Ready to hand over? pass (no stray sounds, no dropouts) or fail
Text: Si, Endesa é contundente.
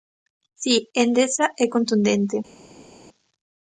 pass